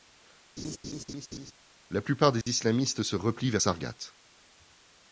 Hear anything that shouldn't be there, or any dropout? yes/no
yes